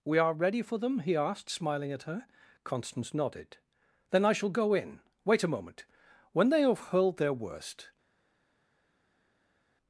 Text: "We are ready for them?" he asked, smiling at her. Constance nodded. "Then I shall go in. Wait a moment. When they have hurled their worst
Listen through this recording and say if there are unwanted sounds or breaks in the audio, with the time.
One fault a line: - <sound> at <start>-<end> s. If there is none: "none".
none